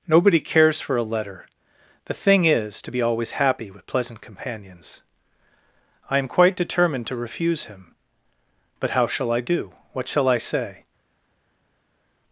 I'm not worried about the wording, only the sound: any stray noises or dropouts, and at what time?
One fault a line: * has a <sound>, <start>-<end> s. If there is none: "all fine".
all fine